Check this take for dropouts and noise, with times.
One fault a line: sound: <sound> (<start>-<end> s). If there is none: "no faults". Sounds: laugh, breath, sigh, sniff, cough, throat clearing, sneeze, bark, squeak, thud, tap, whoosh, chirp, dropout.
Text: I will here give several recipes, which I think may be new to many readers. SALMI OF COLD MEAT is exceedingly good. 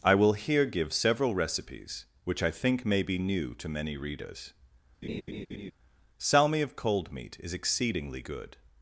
sound: laugh (5.0-5.7 s)